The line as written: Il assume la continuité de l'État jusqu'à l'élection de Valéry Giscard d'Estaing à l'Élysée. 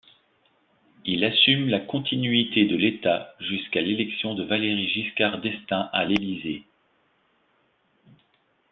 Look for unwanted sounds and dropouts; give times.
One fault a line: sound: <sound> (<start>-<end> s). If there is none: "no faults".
no faults